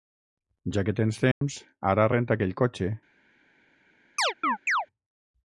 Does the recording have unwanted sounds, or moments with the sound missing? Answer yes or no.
yes